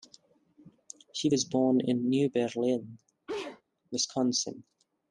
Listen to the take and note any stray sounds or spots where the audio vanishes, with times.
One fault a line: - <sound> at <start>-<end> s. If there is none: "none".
- sneeze at 3.3-3.6 s